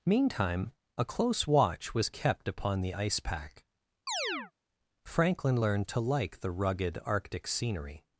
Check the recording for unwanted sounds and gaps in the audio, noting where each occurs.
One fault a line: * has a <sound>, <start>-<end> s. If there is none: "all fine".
* has a chirp, 4.1-4.5 s